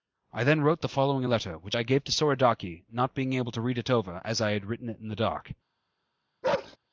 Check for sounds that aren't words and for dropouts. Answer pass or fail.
fail